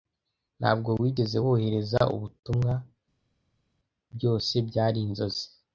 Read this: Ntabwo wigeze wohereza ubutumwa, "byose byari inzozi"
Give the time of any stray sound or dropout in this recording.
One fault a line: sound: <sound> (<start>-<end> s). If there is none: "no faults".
no faults